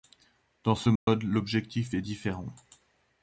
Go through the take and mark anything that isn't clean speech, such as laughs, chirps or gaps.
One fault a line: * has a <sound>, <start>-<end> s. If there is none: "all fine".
* has a dropout, 1.0-1.1 s